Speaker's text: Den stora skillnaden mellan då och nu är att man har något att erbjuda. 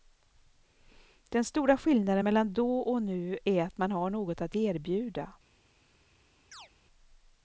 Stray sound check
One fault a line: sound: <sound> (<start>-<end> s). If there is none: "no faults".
sound: chirp (6.5-6.7 s)